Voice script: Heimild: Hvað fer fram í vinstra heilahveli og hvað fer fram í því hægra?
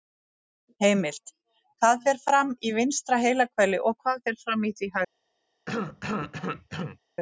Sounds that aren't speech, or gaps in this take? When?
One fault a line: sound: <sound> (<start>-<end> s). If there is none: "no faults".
sound: cough (5.7-7.0 s)